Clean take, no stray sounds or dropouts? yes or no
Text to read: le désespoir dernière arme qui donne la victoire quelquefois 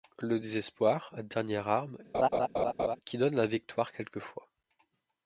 no